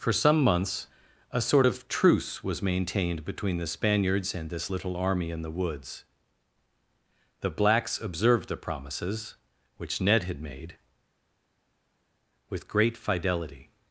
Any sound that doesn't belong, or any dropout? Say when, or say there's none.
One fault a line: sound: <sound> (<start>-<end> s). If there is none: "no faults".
no faults